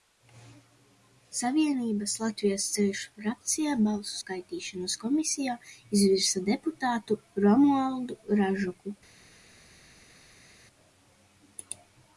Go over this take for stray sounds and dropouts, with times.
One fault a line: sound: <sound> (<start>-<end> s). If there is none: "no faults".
no faults